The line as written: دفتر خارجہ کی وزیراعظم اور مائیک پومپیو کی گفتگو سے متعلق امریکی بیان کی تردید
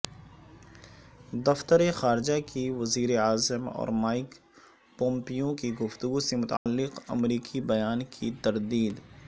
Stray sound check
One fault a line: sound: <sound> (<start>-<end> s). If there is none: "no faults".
sound: dropout (6.6-6.7 s)